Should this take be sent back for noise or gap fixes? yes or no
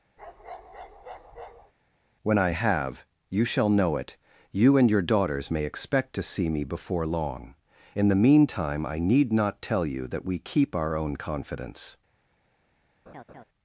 yes